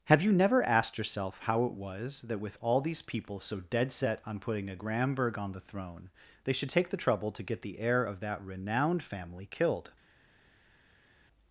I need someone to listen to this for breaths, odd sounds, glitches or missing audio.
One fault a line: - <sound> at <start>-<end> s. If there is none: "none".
none